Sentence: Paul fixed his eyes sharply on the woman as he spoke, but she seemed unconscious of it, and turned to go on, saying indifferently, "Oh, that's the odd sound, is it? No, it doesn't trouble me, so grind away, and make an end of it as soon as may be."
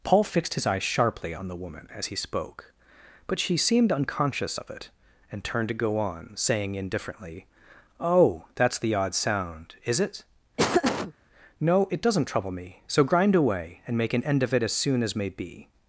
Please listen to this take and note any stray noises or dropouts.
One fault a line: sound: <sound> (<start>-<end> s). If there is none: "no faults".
sound: laugh (10.6-11.1 s)